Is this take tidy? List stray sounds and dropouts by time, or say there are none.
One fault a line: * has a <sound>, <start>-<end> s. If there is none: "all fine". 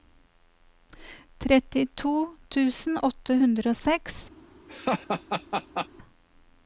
* has a laugh, 4.7-5.9 s